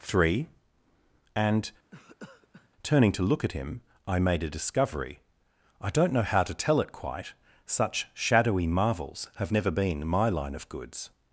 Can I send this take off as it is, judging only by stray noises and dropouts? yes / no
no